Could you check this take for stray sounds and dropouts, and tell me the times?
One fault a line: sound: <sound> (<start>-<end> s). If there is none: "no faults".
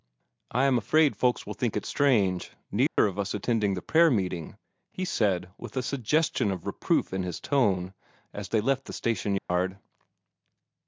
sound: dropout (2.9-3.0 s)
sound: dropout (9.4-9.5 s)